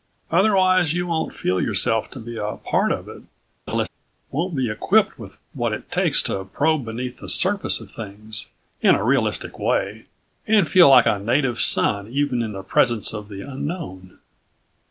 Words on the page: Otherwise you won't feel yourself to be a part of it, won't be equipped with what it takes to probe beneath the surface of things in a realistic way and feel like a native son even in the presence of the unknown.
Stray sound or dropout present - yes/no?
yes